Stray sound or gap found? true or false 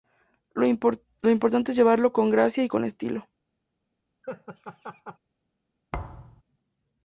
true